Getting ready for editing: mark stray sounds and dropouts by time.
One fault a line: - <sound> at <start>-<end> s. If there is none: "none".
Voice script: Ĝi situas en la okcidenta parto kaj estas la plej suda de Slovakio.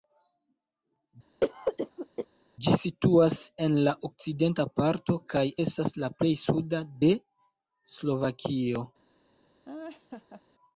- cough at 1.4-2.3 s
- laugh at 9.7-10.4 s